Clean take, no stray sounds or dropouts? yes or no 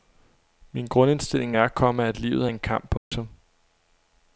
no